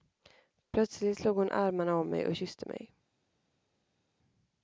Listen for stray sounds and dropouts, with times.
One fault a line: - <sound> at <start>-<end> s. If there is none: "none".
none